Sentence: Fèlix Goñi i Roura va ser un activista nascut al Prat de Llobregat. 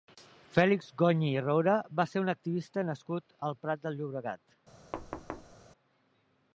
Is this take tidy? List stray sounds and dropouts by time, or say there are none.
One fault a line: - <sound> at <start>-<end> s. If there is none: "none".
- thud at 4.9-5.6 s